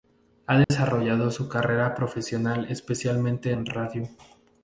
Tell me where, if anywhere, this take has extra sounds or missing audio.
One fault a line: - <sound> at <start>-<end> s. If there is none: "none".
- dropout at 0.6-0.7 s